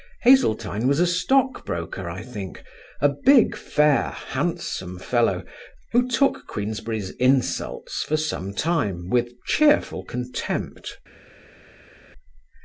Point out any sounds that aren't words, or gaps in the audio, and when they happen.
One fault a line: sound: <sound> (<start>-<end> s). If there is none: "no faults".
no faults